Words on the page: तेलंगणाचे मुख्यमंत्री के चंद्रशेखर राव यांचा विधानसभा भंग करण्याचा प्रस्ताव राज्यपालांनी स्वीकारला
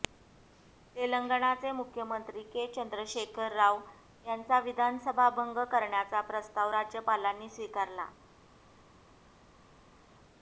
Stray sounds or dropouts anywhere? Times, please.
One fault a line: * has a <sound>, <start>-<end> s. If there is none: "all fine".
all fine